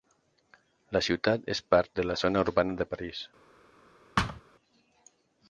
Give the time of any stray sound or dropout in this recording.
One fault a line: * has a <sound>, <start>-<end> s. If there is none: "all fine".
* has a thud, 4.2-4.4 s